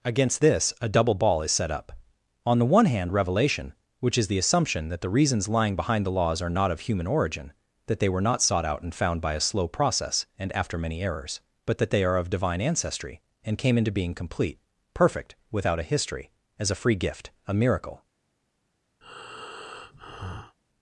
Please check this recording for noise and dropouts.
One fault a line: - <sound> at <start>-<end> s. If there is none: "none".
- breath at 19.0-20.6 s